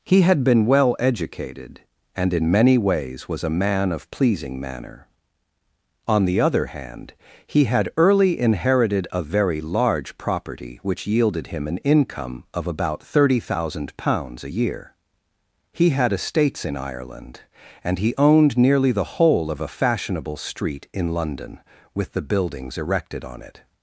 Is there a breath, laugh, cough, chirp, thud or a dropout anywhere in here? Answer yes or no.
no